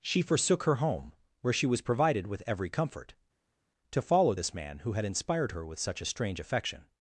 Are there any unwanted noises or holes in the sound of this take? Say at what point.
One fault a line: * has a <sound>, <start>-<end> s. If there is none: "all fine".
all fine